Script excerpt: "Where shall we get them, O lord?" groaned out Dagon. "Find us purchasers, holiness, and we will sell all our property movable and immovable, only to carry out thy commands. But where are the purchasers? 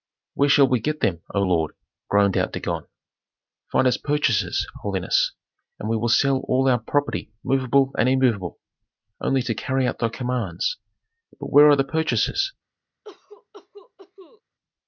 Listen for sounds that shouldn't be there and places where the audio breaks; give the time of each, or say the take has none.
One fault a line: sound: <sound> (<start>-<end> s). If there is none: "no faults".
sound: cough (13.0-14.4 s)